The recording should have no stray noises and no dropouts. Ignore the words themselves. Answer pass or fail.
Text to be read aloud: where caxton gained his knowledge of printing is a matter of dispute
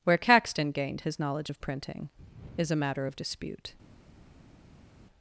pass